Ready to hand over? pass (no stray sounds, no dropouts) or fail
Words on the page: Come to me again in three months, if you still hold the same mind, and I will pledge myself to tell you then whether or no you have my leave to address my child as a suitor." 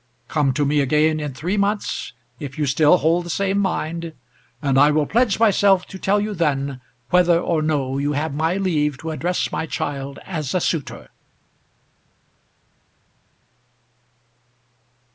pass